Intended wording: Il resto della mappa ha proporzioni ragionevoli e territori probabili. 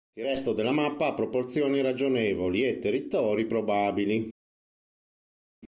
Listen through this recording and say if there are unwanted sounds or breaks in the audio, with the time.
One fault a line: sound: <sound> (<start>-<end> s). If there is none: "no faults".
no faults